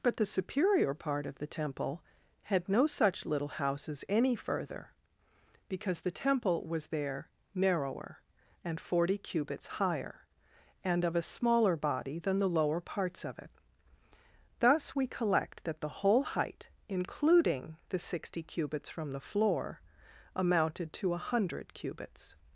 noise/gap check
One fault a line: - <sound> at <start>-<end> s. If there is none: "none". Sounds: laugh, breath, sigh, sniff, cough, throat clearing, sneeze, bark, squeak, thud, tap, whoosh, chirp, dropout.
none